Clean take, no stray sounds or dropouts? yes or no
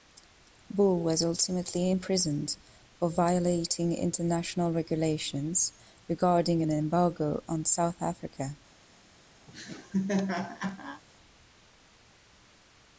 no